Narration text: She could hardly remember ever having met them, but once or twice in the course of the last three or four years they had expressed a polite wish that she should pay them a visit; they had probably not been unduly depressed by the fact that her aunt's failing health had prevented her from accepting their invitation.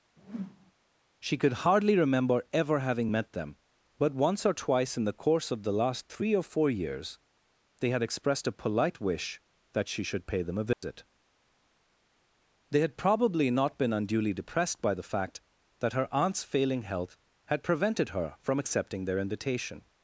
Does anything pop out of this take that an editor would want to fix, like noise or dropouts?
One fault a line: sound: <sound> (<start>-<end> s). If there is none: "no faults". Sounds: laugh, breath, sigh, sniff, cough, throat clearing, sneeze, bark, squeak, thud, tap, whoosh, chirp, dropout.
sound: whoosh (0.2-0.7 s)
sound: dropout (10.7-10.8 s)